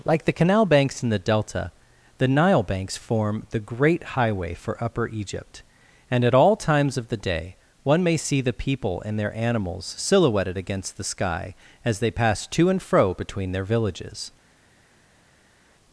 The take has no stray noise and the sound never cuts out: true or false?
true